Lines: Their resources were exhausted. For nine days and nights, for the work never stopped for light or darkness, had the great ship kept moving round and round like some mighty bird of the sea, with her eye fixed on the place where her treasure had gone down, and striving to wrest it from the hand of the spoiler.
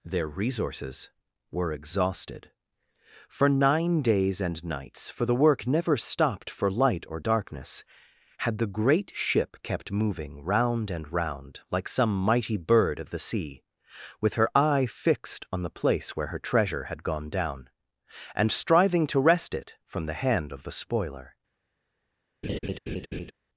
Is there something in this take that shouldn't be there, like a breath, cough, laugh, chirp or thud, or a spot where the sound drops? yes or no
yes